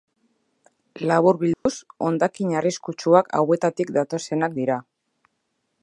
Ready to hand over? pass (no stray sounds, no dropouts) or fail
fail